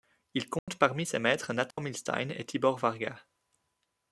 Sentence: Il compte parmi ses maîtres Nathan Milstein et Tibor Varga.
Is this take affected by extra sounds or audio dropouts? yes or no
yes